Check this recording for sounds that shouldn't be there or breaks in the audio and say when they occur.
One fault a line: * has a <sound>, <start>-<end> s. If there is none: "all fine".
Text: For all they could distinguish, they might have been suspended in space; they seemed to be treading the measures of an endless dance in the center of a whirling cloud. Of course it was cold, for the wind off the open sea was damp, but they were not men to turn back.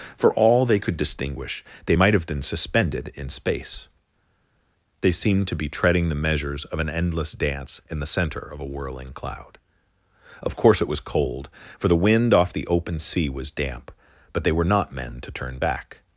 all fine